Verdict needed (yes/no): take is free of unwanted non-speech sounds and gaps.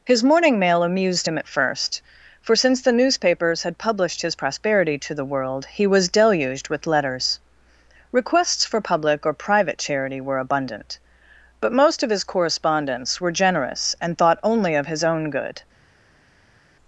yes